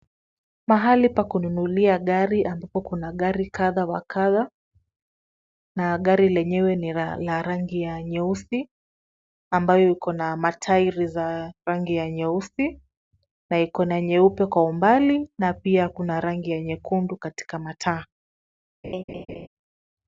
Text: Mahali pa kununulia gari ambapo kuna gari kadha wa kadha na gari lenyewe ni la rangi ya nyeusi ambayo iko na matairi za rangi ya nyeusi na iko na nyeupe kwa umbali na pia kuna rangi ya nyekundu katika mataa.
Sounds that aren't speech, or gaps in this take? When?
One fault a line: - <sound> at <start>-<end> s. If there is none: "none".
- laugh at 18.8-19.5 s